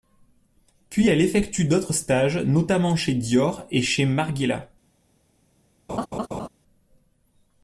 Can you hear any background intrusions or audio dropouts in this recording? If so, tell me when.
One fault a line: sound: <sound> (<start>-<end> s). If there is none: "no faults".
sound: laugh (5.9-6.5 s)